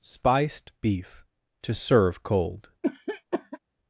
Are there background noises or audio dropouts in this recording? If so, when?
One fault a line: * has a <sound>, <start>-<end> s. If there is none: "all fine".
* has a cough, 2.8-3.6 s